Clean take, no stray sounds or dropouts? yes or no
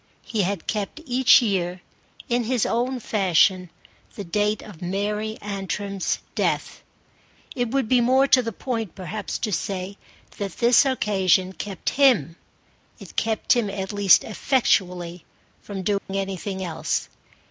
no